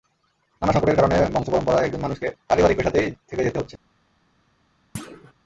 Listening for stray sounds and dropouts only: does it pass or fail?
fail